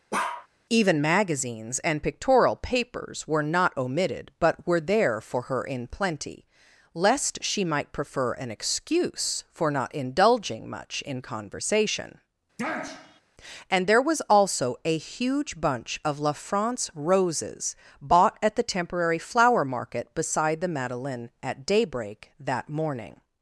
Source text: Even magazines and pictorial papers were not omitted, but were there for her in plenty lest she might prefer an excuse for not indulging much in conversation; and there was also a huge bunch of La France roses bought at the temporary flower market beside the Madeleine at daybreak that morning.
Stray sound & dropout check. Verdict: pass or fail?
fail